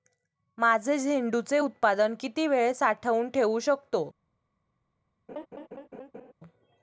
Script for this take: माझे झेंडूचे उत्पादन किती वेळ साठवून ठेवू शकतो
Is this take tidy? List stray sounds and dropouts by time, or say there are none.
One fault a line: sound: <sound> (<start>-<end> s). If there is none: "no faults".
sound: laugh (5.3-6.3 s)